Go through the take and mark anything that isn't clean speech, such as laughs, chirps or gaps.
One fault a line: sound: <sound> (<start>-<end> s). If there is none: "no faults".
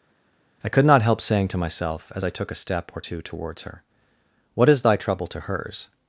no faults